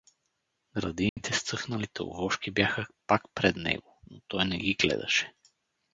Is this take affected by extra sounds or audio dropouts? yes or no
yes